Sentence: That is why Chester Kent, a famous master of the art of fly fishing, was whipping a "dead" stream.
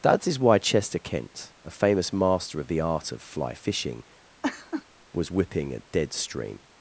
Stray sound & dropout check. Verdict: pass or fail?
fail